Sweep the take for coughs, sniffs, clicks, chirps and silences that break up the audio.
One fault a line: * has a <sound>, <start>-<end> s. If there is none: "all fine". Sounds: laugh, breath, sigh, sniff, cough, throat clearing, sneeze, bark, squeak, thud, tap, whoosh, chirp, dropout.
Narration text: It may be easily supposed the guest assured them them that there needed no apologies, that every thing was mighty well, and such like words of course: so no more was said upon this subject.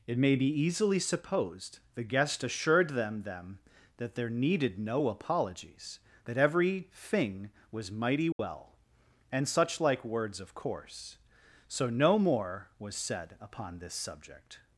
* has a dropout, 8.3-8.4 s